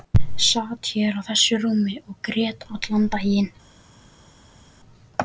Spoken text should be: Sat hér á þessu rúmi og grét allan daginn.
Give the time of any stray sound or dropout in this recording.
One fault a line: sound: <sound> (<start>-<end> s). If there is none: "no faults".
no faults